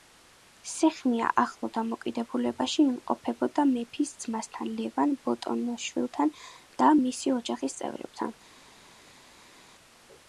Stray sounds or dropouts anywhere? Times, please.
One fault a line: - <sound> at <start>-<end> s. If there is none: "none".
none